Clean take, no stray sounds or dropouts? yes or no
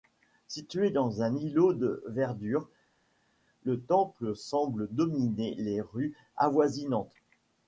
yes